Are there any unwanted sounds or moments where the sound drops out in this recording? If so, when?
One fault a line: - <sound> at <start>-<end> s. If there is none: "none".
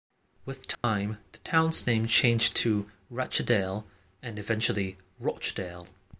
- dropout at 0.7-0.8 s